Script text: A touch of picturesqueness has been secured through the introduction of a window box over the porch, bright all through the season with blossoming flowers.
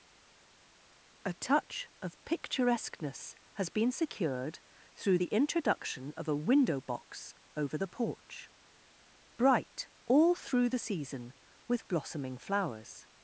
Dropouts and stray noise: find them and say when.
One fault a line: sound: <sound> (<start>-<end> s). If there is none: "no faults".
no faults